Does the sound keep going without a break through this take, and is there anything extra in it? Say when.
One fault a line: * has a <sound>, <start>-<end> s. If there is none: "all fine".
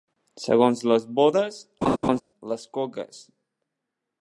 * has a laugh, 1.8-2.2 s